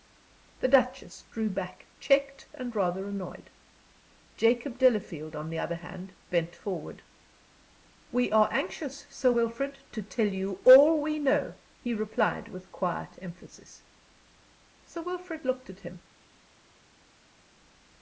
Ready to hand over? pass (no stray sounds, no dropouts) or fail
pass